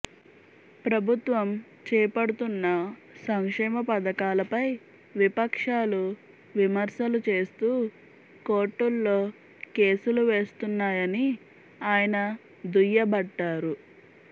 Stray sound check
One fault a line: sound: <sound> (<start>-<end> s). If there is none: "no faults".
no faults